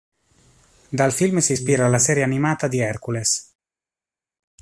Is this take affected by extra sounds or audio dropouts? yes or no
no